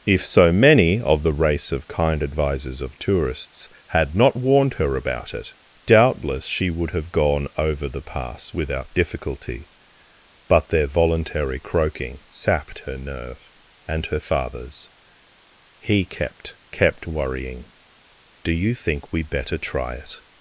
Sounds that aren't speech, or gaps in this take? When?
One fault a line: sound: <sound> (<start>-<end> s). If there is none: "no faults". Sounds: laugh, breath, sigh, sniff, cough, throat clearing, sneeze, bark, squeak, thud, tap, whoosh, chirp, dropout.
no faults